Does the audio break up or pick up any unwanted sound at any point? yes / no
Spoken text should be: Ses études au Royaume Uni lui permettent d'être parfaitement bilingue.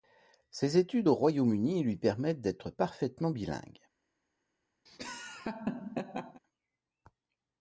yes